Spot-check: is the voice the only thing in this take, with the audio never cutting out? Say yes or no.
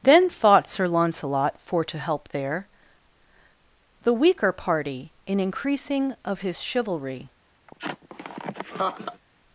no